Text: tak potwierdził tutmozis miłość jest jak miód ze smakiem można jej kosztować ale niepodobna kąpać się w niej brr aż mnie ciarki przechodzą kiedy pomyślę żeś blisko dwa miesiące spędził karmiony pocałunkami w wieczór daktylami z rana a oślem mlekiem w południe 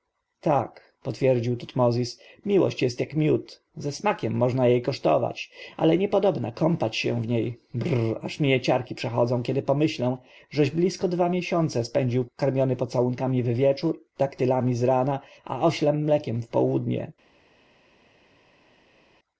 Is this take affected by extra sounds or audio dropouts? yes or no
no